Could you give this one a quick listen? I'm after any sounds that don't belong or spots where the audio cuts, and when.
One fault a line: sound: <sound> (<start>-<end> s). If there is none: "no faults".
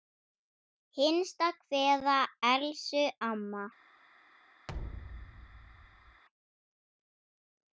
sound: thud (4.7-6.2 s)